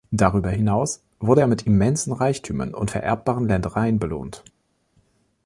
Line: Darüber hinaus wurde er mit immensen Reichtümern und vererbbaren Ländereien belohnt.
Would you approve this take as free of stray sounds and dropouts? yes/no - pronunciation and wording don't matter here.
yes